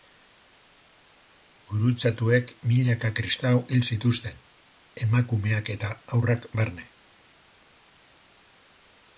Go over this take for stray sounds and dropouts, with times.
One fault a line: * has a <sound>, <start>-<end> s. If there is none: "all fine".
all fine